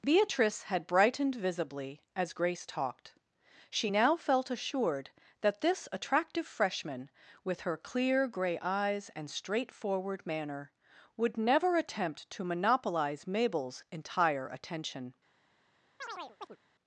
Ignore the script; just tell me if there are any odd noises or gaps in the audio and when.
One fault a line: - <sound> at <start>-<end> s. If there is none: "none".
- chirp at 16.0-16.6 s